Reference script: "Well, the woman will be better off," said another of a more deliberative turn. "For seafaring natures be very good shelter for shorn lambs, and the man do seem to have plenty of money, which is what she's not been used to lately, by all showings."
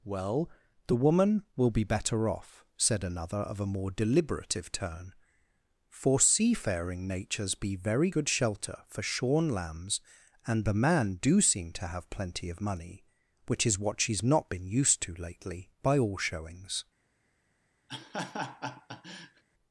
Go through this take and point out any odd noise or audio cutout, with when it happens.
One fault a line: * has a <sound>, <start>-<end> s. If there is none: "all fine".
* has a laugh, 17.9-19.4 s